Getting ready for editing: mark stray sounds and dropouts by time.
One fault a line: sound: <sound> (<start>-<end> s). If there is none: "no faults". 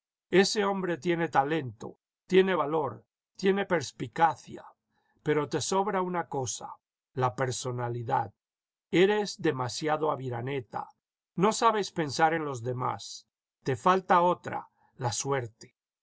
no faults